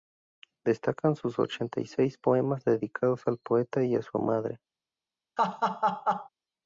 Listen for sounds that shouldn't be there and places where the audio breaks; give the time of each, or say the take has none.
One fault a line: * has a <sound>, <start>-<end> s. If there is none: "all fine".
* has a laugh, 5.4-6.3 s